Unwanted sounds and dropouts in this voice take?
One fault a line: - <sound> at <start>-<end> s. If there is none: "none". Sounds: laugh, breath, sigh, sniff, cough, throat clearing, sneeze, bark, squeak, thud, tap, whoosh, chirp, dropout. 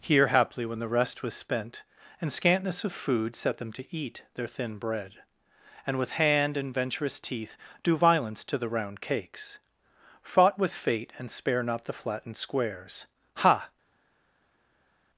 none